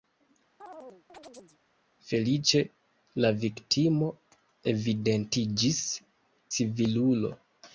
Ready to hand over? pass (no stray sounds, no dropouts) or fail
fail